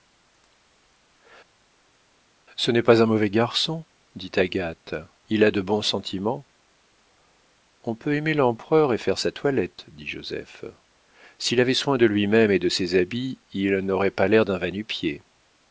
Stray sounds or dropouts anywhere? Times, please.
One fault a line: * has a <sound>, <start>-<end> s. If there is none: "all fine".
all fine